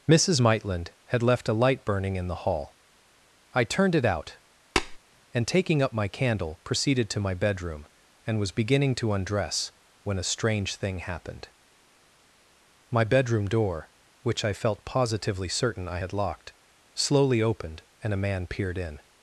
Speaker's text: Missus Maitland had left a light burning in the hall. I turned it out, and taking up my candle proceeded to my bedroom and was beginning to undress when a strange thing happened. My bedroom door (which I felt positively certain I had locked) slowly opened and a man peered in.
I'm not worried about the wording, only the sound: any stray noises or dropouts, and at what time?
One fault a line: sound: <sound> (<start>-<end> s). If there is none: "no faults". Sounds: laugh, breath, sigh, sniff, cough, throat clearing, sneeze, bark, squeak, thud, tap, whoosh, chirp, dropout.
sound: tap (4.8-5.0 s)